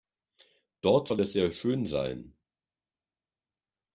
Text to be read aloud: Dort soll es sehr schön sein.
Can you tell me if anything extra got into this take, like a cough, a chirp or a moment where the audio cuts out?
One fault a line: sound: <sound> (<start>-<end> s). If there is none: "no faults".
no faults